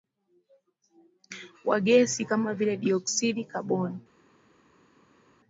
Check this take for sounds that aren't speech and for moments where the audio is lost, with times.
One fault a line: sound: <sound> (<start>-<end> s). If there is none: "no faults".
no faults